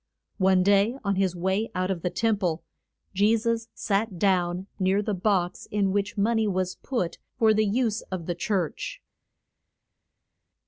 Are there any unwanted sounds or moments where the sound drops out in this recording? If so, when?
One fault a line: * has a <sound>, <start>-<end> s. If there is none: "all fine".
all fine